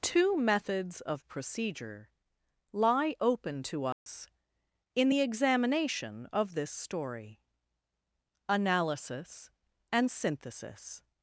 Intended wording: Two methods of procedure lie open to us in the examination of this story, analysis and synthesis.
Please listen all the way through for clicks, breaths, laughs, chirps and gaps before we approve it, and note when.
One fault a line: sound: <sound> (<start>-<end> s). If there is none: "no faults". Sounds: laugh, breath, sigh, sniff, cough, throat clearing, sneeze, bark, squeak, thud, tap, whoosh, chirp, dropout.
sound: dropout (3.9-4.1 s)